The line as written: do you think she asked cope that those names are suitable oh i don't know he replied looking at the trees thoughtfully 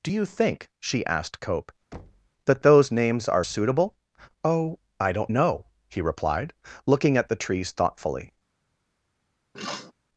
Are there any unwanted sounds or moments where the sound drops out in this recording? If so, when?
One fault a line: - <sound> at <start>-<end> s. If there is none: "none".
- thud at 1.9-2.3 s
- sniff at 9.5-9.9 s